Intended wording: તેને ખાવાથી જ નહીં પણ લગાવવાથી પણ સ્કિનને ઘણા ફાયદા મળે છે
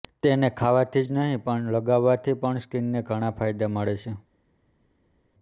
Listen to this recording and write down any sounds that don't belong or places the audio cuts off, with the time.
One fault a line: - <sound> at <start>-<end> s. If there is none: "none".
none